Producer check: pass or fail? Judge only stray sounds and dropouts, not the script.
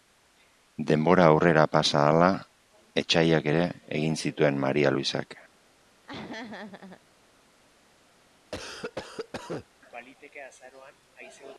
fail